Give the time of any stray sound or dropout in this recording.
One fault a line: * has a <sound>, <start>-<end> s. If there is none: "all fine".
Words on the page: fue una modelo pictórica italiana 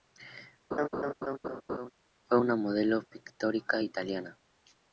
* has a laugh, 0.7-1.9 s